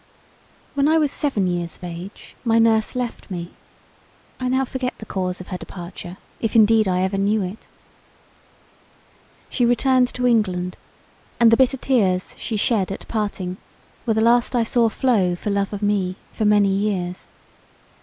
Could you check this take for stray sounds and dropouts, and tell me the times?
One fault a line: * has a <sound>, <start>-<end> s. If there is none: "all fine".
all fine